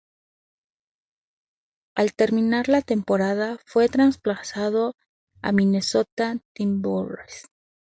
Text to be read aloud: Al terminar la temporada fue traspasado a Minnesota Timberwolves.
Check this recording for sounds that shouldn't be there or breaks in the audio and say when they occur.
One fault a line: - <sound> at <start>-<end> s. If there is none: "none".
none